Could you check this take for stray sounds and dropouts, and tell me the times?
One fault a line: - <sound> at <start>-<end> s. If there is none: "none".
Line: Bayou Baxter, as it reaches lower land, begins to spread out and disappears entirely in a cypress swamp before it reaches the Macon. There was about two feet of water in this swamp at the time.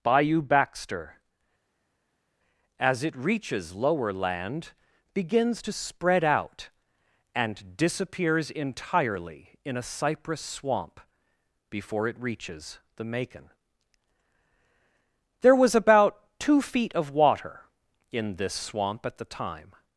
none